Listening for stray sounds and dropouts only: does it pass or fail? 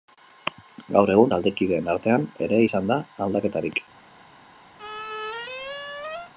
fail